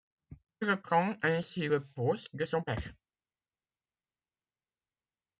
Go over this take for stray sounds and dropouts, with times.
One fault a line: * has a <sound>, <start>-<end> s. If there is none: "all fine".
all fine